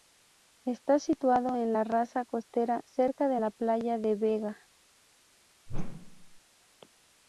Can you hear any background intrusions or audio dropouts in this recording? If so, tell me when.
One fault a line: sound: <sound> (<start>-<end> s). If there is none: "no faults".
sound: whoosh (5.7-6.4 s)